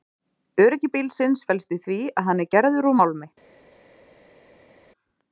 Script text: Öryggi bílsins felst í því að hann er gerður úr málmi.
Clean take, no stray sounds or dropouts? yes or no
yes